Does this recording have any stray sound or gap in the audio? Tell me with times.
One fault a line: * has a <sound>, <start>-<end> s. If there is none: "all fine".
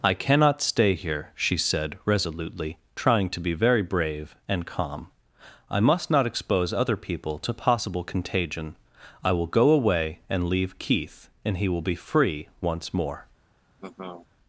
* has a laugh, 13.8-14.3 s